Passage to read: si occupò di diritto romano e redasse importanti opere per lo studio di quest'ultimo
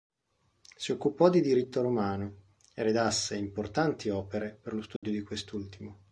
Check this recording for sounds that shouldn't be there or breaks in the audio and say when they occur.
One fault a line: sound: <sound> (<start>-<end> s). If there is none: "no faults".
sound: dropout (5.0-5.0 s)